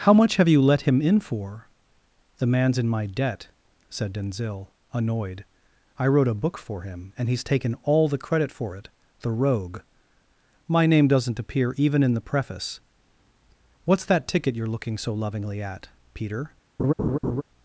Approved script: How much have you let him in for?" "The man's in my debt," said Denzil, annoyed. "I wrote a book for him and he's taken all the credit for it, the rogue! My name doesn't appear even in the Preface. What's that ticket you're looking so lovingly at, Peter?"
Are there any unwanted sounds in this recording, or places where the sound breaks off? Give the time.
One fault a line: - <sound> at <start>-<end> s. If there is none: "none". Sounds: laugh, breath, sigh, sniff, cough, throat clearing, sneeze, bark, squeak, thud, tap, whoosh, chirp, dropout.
- laugh at 16.8-17.4 s